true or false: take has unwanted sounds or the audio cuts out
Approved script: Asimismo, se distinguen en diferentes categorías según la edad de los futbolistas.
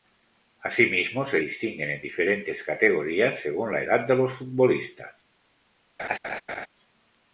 true